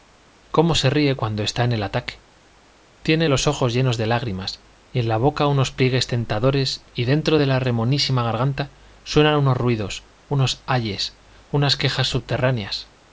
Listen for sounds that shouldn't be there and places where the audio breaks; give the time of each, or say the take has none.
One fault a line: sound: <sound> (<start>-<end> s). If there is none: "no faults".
no faults